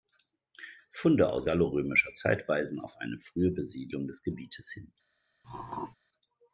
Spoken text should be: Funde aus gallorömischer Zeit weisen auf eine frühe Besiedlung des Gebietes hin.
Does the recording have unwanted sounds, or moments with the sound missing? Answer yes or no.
yes